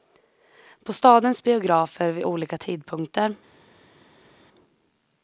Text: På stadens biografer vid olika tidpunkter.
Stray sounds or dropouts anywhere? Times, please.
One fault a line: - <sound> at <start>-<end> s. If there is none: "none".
none